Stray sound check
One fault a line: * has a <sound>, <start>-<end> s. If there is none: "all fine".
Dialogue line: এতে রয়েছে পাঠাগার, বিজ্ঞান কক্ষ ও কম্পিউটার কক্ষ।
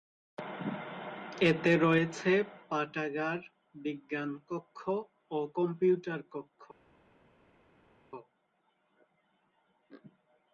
all fine